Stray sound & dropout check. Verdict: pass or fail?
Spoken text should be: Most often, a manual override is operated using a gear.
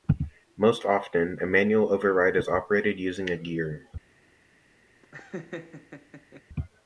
fail